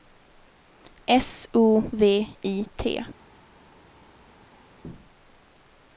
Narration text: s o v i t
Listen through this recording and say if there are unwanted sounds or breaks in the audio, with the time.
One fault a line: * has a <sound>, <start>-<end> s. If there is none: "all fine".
all fine